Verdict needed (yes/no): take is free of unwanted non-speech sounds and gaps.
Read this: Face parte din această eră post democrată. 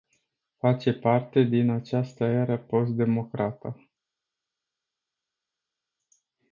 yes